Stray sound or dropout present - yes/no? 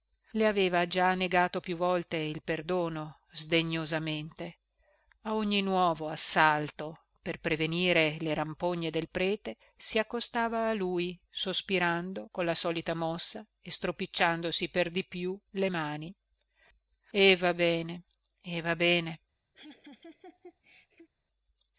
yes